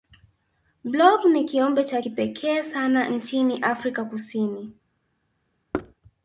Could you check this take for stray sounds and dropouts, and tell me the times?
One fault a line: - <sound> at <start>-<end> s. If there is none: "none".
- thud at 5.7-5.9 s